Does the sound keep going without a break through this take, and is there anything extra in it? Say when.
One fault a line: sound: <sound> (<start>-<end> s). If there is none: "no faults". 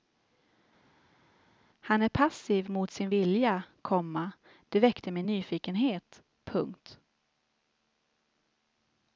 no faults